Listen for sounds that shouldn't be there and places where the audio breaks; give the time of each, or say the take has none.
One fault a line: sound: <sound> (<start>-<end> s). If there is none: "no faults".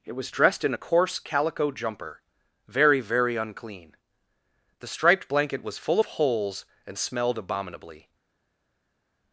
no faults